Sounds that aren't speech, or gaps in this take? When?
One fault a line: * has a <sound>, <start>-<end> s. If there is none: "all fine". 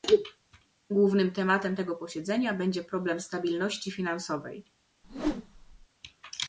* has a whoosh, 5.0-5.9 s